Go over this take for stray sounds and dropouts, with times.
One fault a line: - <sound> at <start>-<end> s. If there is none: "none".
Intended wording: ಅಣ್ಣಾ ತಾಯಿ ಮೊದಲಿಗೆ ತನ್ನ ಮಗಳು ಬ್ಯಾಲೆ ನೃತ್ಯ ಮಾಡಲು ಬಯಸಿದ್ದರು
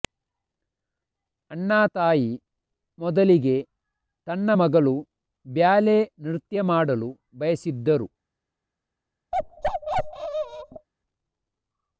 - bark at 9.3-10.9 s